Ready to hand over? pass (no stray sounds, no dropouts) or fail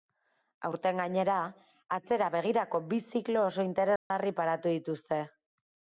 fail